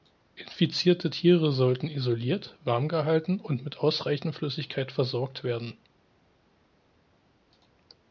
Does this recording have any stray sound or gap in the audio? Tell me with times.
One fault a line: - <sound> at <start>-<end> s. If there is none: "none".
none